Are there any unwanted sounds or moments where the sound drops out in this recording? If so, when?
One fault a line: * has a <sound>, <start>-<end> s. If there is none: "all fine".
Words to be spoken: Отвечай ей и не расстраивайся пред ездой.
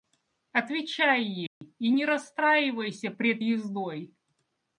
* has a dropout, 1.5-1.6 s